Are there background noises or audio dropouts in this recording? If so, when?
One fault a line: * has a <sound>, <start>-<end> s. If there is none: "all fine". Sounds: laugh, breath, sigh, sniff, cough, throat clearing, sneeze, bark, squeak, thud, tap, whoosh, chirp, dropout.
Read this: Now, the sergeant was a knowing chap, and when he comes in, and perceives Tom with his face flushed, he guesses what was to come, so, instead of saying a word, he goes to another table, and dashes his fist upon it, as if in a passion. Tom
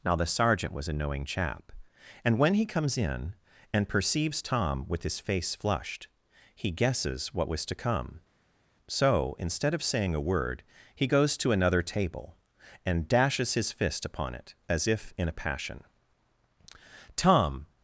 all fine